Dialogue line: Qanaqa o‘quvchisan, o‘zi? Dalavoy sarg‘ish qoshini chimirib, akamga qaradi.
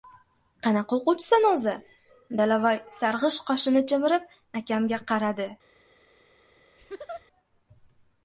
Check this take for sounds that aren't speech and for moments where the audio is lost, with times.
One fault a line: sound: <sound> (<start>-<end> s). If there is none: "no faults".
sound: laugh (6.8-7.3 s)